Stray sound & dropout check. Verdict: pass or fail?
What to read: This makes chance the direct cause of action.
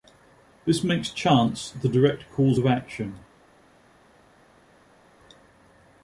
pass